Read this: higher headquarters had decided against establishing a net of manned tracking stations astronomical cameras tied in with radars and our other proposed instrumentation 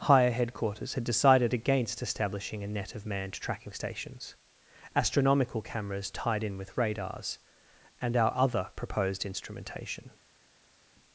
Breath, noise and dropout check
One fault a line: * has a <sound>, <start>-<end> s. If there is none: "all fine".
all fine